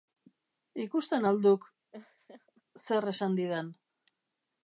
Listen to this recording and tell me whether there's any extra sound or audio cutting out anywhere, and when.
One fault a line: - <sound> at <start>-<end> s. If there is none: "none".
- laugh at 1.9-2.6 s